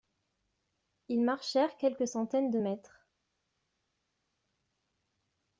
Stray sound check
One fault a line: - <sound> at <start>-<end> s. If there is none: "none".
none